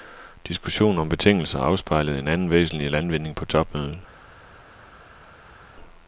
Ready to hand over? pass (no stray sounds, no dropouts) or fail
pass